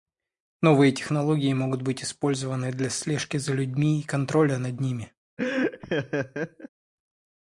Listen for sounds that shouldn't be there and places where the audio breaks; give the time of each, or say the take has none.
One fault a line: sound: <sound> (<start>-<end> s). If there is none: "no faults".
sound: laugh (5.4-6.7 s)